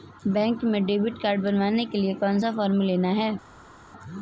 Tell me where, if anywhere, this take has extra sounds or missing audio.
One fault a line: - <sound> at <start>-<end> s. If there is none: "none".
none